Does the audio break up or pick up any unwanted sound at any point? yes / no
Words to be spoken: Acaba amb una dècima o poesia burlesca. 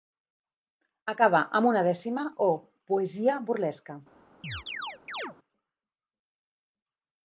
yes